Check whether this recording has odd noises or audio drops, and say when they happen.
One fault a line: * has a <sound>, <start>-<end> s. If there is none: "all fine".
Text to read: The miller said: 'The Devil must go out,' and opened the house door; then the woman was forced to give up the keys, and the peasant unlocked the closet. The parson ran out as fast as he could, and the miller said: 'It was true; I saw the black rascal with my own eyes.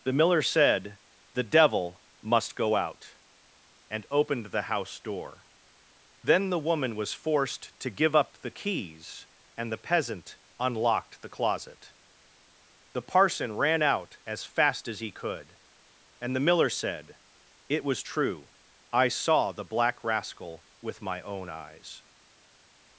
all fine